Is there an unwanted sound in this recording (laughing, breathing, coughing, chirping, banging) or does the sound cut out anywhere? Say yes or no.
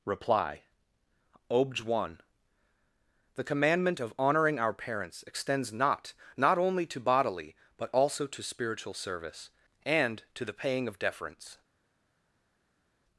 no